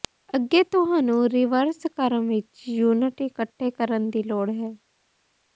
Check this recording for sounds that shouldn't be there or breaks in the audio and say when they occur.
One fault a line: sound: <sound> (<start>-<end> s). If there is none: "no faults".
no faults